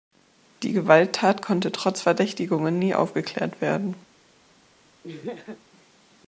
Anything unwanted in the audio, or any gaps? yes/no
yes